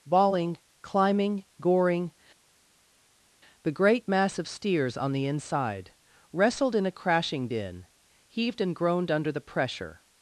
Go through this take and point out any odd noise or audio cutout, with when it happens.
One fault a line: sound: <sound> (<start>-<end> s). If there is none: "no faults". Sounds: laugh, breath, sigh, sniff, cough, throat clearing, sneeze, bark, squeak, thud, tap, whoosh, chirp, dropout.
no faults